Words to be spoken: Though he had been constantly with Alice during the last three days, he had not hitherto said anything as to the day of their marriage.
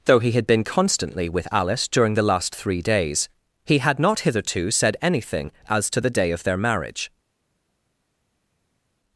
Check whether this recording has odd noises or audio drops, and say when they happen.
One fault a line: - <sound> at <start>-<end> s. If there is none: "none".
none